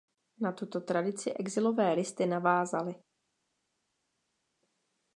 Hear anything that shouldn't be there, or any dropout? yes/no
no